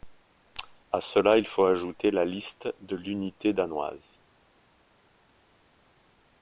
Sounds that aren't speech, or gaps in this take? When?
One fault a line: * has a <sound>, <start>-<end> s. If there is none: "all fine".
all fine